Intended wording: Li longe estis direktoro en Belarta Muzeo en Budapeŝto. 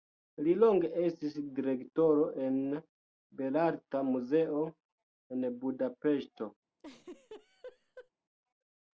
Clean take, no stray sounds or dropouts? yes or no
no